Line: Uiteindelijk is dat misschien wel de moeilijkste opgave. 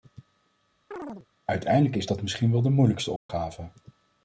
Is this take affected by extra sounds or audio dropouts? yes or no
yes